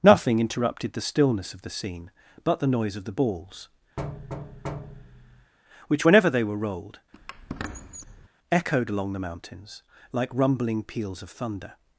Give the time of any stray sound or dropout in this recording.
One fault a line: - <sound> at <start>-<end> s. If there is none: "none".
- thud at 4.0-5.5 s
- squeak at 7.1-8.3 s